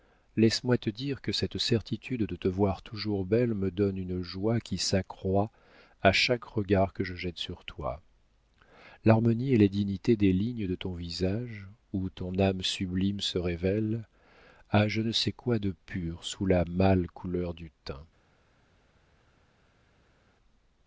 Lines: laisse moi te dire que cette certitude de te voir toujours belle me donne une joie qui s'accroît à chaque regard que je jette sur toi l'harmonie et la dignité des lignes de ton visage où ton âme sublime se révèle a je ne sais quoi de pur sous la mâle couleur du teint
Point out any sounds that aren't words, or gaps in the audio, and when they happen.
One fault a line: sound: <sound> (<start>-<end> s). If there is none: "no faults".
no faults